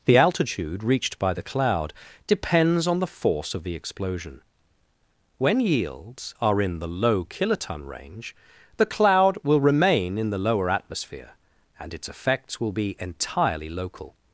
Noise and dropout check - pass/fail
pass